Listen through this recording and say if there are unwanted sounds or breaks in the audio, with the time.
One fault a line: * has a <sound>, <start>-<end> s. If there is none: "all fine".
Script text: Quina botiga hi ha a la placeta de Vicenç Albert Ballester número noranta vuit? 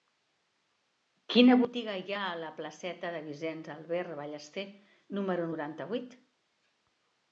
all fine